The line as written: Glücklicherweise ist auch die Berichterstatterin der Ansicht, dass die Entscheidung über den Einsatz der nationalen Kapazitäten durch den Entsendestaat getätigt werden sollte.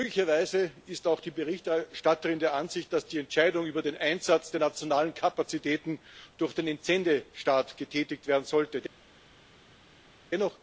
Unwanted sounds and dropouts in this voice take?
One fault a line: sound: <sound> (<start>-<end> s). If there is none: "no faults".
no faults